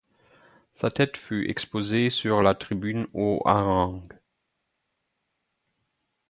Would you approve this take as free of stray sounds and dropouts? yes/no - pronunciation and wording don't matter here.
yes